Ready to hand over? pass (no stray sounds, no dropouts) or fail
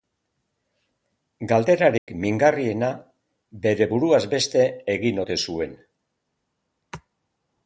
fail